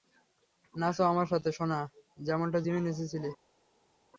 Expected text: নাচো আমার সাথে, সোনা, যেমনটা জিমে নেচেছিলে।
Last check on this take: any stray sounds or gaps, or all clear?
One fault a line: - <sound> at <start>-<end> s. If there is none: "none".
none